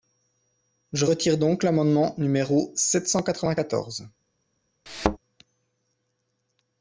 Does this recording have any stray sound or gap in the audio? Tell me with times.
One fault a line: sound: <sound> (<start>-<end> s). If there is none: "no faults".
sound: thud (4.9-5.2 s)